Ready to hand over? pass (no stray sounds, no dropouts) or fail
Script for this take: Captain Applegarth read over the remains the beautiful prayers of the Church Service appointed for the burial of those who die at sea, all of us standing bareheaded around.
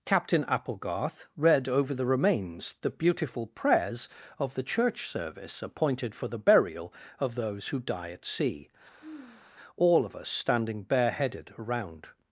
fail